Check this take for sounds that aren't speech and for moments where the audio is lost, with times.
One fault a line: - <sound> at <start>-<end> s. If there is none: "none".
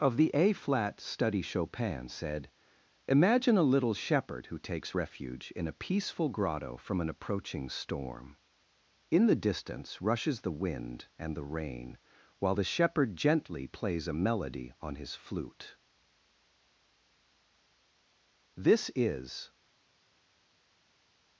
none